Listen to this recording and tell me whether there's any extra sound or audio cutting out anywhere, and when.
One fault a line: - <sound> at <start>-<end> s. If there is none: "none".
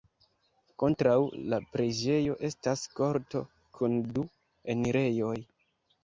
none